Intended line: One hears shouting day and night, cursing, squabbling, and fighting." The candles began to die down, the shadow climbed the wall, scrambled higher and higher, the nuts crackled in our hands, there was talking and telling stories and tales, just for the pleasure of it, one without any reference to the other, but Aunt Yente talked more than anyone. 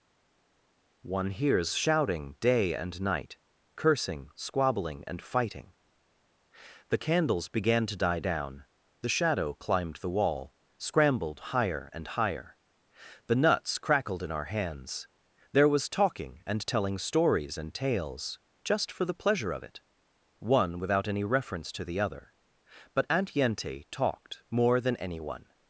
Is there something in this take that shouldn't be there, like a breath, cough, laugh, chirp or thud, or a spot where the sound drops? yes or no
no